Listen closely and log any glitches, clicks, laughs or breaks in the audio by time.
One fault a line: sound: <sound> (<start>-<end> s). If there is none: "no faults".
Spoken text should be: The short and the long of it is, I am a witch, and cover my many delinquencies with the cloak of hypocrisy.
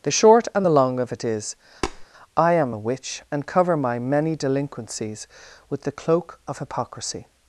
sound: tap (1.8-2.1 s)